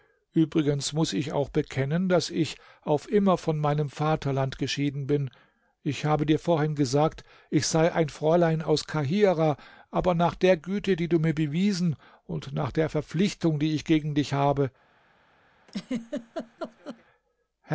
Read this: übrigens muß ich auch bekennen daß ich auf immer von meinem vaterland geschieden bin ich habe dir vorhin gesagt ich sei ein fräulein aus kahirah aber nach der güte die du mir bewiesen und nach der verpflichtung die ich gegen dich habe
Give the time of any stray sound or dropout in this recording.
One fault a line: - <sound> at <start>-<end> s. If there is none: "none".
- laugh at 15.7-17.0 s